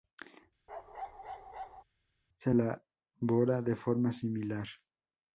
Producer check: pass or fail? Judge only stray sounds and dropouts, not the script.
fail